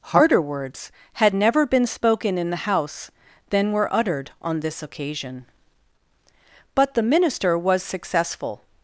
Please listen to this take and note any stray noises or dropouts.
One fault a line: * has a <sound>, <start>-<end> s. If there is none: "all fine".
all fine